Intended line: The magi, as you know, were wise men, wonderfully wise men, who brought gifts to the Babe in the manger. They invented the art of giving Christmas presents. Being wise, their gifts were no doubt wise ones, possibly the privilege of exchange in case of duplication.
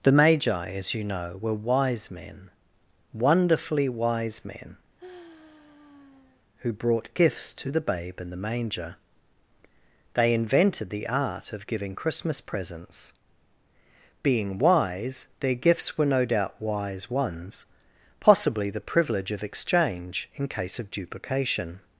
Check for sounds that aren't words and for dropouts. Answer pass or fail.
fail